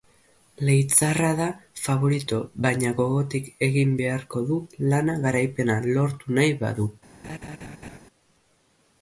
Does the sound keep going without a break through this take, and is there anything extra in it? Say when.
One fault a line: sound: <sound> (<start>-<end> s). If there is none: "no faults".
sound: laugh (7.2-8.0 s)